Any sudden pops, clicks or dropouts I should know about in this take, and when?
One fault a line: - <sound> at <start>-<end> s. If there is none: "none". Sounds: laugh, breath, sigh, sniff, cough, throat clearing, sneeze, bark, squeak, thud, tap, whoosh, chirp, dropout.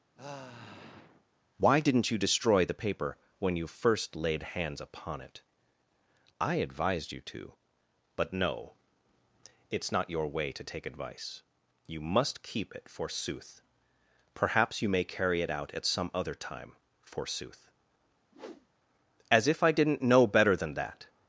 - sigh at 0.1-1.2 s
- whoosh at 18.3-18.7 s